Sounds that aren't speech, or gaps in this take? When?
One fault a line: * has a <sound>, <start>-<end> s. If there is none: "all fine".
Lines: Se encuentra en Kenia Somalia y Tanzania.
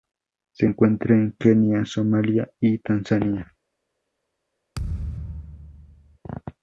* has a thud, 4.7-6.2 s